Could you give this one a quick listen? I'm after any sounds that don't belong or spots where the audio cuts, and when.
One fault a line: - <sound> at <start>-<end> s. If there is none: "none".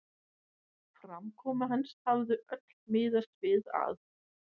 none